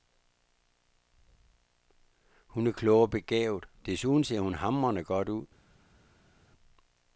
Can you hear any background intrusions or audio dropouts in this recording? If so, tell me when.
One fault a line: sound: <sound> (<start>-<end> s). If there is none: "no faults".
no faults